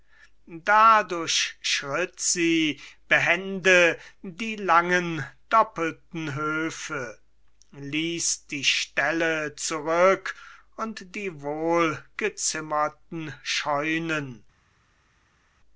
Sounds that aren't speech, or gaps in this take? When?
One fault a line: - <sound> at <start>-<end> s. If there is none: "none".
none